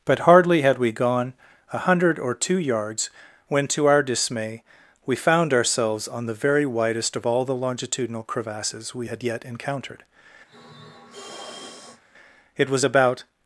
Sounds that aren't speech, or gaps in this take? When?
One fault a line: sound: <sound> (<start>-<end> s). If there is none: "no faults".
sound: sniff (10.5-12.0 s)